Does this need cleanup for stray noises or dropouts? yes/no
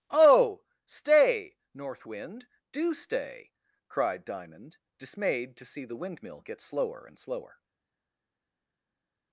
no